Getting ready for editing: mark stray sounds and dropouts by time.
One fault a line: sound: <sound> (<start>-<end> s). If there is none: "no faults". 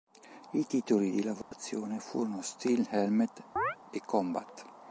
sound: dropout (1.4-1.5 s)
sound: chirp (3.6-3.8 s)